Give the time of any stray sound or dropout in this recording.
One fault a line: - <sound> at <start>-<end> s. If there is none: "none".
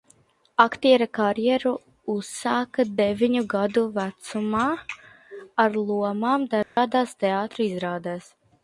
- dropout at 6.6-6.8 s